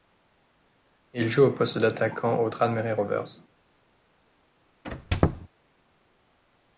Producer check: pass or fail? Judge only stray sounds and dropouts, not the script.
fail